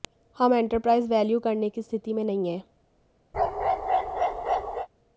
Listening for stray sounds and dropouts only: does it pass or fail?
fail